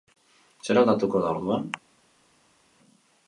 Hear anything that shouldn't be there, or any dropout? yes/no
no